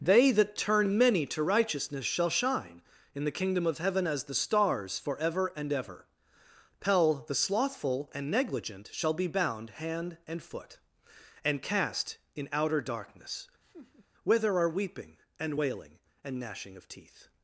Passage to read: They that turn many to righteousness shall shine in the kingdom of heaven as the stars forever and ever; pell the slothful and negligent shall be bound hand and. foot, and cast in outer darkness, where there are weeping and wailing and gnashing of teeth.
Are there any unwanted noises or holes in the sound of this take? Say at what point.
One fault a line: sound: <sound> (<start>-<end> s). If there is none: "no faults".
sound: laugh (13.6-14.1 s)